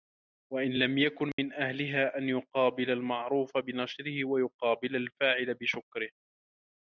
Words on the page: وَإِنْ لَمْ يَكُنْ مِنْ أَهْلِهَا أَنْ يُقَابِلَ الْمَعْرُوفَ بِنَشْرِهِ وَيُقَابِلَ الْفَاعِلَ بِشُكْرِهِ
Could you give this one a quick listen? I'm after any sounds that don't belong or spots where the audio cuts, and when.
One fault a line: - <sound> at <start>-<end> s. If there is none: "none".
- dropout at 1.3-1.4 s